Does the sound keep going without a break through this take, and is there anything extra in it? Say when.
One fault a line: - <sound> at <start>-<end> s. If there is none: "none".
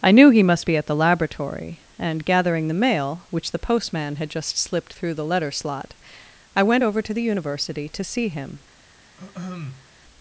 - throat clearing at 9.2-9.9 s